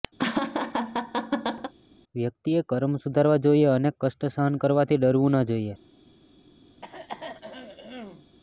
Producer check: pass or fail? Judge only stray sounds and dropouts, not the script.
fail